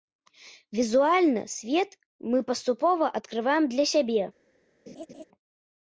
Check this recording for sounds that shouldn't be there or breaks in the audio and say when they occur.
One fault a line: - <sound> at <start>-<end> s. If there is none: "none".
- laugh at 4.9-5.2 s